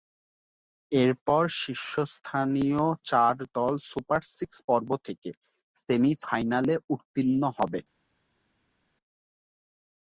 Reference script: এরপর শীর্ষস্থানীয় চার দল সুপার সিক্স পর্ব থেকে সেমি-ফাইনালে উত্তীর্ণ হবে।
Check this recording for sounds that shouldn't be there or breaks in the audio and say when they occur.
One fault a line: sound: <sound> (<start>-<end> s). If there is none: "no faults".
no faults